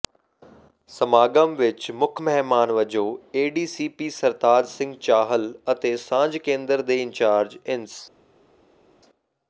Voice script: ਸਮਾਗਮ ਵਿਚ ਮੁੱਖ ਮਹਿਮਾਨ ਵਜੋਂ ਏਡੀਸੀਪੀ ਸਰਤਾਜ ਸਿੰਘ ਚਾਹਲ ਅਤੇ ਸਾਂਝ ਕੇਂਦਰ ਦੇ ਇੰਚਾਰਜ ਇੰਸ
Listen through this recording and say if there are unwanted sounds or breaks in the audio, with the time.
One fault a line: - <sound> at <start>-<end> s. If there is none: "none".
none